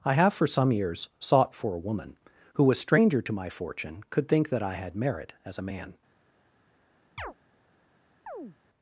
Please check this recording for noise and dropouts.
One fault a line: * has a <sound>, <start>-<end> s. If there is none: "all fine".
* has a chirp, 7.2-7.3 s
* has a chirp, 8.3-8.6 s